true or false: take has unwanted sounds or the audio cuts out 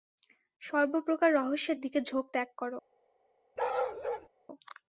true